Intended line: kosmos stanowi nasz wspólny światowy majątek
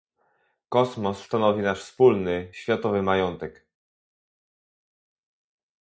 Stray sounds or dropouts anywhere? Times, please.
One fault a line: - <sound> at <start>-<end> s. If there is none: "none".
none